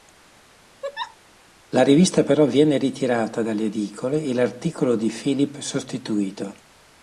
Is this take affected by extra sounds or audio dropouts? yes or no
yes